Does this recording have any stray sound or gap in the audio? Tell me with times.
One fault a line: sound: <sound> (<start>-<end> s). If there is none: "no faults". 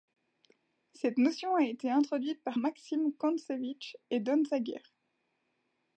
no faults